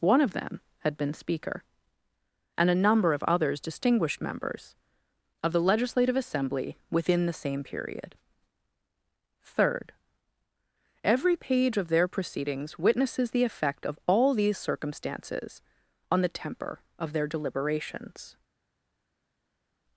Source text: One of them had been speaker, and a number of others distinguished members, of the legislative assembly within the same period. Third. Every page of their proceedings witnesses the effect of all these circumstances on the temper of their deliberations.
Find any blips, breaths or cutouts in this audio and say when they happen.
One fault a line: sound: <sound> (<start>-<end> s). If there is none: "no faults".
no faults